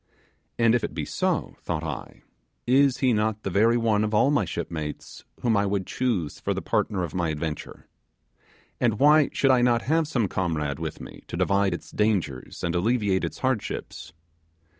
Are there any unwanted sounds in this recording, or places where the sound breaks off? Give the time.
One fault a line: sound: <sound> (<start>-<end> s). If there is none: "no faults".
no faults